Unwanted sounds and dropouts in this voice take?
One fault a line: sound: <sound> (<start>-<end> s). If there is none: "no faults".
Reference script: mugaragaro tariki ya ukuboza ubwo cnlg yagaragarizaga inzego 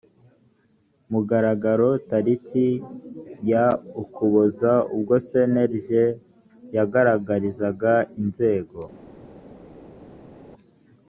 no faults